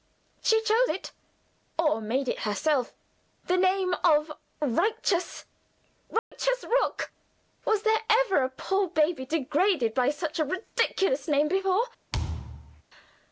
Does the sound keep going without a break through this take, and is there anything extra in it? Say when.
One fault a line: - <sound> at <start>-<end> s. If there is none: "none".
- dropout at 6.2-6.3 s
- thud at 12.1-12.8 s